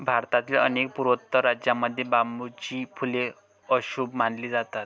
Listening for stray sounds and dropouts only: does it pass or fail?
pass